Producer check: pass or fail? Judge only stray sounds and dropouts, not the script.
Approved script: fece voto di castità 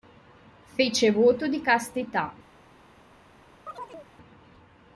fail